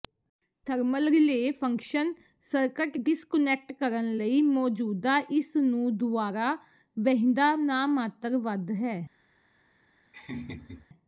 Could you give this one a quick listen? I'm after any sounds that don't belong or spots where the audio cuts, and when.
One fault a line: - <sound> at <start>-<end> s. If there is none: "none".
- laugh at 10.1-10.9 s